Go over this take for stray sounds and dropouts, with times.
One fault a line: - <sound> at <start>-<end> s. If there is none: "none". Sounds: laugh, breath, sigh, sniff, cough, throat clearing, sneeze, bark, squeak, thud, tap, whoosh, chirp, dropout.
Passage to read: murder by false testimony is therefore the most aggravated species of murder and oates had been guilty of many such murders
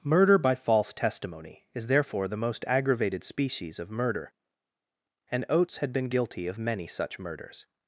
none